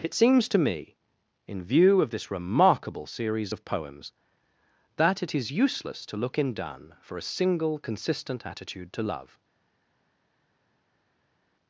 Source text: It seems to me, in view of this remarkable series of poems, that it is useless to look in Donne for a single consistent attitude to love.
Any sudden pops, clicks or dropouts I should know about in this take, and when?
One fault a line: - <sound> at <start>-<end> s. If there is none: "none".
none